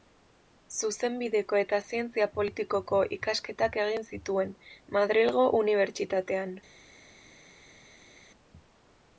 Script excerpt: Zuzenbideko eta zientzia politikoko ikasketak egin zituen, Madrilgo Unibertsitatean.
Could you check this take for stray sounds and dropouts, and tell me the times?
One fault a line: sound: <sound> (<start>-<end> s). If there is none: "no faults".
no faults